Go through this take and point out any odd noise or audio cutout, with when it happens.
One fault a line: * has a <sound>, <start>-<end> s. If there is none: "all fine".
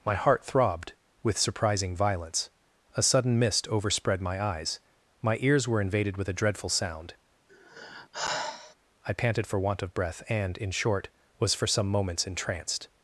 * has a sigh, 7.5-8.7 s